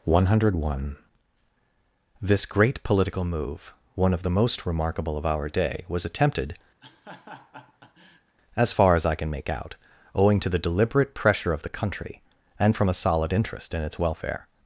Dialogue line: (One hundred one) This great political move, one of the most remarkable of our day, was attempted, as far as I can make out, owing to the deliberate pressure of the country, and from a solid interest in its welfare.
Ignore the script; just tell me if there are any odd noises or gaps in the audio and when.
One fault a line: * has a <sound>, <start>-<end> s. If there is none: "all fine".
* has a laugh, 6.8-8.4 s